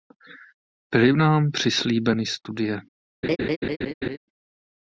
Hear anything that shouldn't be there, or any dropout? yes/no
yes